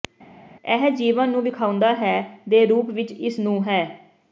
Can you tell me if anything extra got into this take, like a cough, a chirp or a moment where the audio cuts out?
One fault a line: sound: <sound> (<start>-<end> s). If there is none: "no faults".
no faults